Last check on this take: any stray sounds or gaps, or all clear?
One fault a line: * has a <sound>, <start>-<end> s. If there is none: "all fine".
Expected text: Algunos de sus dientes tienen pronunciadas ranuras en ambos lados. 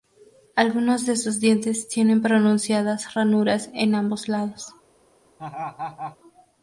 * has a laugh, 5.4-6.2 s